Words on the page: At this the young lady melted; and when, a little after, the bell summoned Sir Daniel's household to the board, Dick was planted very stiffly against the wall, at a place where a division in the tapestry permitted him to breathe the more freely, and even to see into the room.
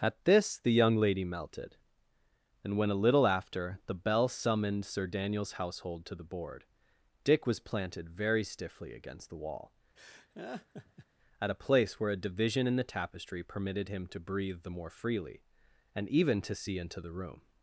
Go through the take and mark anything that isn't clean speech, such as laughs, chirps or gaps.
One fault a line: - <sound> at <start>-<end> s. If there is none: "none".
- laugh at 10.0-11.1 s